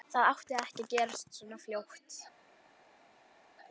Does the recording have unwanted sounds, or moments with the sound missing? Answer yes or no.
no